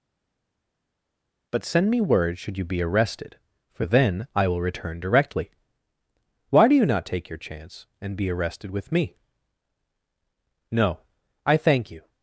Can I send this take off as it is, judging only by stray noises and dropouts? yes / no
yes